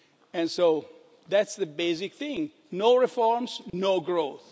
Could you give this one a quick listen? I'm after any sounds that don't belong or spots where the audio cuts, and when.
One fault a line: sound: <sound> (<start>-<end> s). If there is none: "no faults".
sound: dropout (3.7-3.7 s)